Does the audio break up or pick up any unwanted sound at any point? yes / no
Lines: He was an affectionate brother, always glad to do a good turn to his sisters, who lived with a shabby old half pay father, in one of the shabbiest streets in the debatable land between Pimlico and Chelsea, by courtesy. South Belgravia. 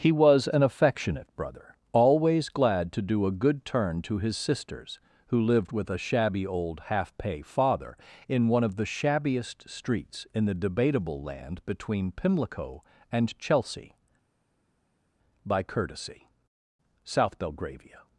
no